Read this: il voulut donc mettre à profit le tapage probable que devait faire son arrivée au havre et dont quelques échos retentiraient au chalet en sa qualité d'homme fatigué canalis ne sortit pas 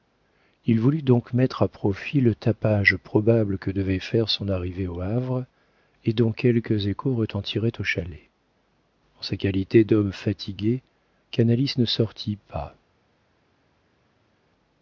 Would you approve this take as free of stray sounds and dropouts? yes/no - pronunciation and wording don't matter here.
yes